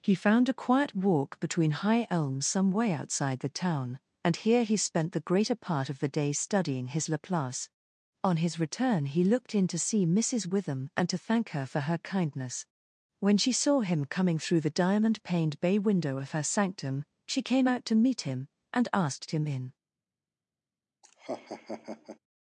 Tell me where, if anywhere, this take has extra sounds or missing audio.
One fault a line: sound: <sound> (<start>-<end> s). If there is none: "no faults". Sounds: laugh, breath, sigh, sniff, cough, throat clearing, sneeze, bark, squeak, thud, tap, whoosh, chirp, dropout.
sound: laugh (21.0-22.2 s)